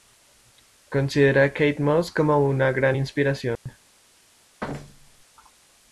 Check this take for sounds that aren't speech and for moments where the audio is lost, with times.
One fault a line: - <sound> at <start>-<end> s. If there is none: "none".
- dropout at 3.6-3.7 s
- thud at 4.6-5.3 s